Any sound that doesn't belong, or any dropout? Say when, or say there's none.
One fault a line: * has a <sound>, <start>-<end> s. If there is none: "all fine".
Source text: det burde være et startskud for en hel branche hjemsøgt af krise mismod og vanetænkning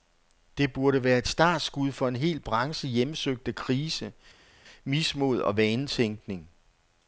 all fine